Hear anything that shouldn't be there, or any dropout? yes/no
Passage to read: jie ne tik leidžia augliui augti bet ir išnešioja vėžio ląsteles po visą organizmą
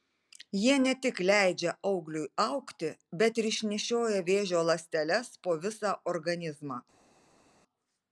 no